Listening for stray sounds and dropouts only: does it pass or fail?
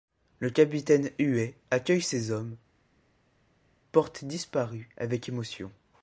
pass